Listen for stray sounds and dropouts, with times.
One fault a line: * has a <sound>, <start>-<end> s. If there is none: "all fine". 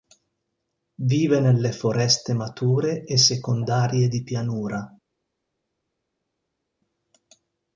all fine